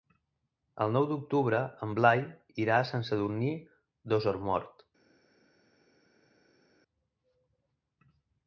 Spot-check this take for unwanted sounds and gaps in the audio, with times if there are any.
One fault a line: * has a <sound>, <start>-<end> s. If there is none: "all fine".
all fine